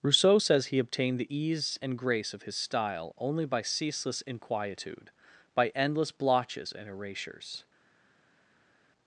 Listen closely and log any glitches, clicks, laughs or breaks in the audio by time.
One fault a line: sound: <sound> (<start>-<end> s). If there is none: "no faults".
no faults